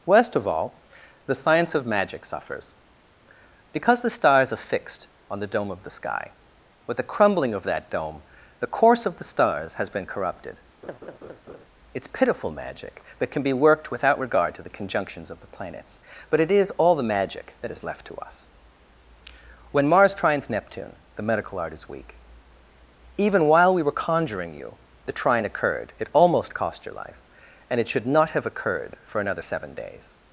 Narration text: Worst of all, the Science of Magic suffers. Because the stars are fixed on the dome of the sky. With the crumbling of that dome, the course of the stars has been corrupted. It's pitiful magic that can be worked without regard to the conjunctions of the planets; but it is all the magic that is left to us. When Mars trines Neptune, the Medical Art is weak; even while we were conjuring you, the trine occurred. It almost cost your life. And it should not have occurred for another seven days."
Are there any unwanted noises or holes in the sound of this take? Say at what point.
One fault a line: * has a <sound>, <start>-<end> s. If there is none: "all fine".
* has a laugh, 10.8-11.6 s